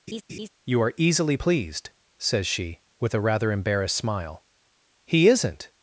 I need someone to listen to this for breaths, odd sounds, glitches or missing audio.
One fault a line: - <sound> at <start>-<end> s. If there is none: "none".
- laugh at 0.1-0.5 s